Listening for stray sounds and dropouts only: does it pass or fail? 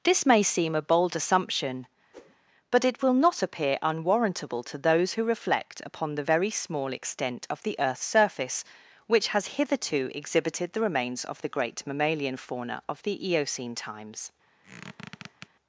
fail